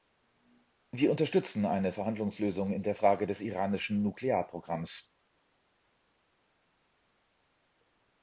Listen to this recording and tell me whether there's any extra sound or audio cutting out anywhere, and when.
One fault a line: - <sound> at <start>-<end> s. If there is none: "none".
none